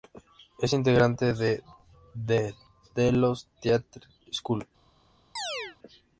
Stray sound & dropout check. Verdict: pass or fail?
fail